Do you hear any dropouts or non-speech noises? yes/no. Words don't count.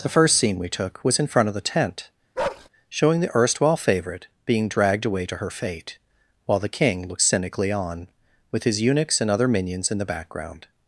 yes